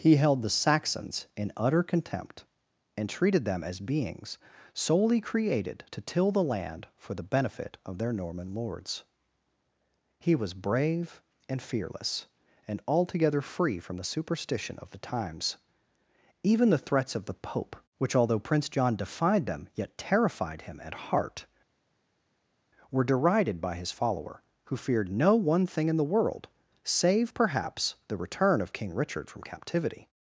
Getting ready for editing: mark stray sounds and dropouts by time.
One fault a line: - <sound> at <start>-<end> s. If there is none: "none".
none